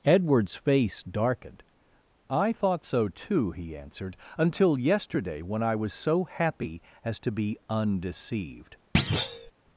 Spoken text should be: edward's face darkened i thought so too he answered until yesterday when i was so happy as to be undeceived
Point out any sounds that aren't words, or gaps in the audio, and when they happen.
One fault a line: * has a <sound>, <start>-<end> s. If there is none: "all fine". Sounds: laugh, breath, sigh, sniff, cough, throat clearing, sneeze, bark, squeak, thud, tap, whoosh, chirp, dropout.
* has a thud, 8.9-9.5 s